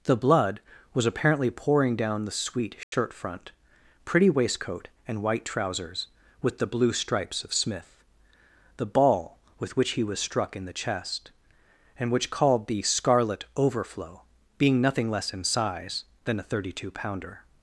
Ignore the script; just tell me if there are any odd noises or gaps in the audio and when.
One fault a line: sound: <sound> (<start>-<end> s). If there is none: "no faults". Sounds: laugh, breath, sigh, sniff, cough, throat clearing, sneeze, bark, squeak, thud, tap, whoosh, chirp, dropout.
sound: dropout (2.8-2.9 s)